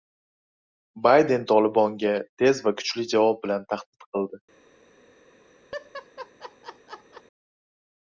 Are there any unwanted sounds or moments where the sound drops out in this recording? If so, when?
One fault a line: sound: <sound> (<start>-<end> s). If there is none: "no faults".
sound: laugh (5.7-7.2 s)